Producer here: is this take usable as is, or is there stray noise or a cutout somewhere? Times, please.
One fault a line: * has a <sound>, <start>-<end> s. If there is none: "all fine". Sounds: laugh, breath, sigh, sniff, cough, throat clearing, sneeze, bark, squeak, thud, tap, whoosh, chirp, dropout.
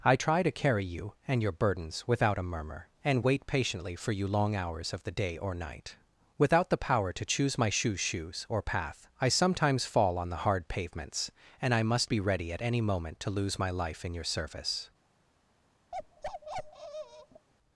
* has a bark, 15.9-17.5 s